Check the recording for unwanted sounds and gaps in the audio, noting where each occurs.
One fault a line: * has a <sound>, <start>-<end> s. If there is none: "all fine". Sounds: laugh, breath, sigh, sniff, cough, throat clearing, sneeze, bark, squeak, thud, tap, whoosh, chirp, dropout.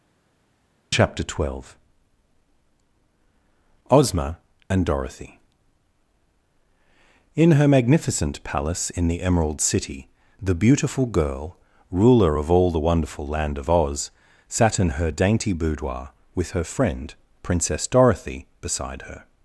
all fine